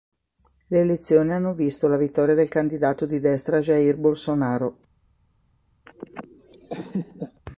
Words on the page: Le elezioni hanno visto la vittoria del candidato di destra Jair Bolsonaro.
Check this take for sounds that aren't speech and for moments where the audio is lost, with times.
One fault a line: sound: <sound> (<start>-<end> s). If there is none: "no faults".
sound: laugh (5.9-7.4 s)